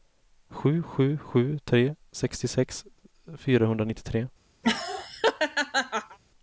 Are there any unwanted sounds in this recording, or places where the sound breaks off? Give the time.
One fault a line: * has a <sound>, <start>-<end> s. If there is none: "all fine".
* has a laugh, 4.6-6.2 s